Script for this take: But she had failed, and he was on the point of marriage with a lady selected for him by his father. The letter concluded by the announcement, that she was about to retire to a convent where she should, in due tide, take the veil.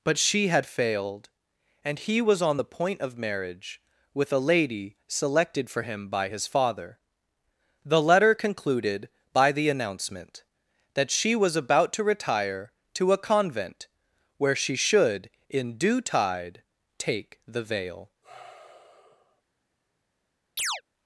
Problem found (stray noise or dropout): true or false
true